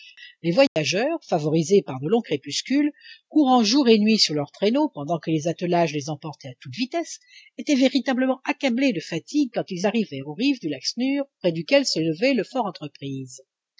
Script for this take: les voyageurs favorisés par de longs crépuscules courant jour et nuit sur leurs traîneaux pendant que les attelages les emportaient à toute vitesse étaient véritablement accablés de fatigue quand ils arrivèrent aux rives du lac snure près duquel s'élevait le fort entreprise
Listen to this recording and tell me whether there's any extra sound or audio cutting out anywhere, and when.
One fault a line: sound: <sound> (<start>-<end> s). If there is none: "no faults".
sound: dropout (0.7-0.8 s)